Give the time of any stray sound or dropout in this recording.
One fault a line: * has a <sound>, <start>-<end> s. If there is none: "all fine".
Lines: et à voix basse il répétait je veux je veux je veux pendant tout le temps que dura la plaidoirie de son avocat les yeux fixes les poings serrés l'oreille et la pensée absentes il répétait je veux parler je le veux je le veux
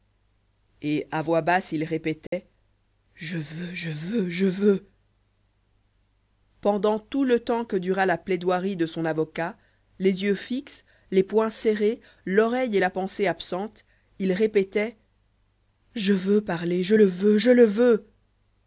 * has a dropout, 2.3-2.3 s